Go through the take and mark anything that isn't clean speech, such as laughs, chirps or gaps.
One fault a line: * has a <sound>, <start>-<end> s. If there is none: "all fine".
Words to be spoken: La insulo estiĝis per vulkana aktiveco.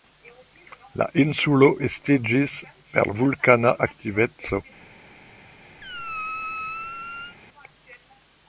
* has a squeak, 5.8-7.4 s